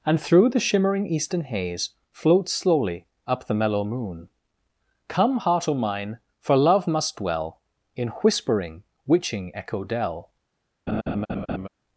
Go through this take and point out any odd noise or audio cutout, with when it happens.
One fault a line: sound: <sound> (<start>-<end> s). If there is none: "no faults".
sound: laugh (10.9-11.7 s)